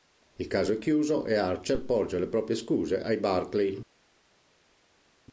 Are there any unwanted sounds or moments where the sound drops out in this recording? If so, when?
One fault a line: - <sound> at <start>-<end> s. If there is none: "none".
none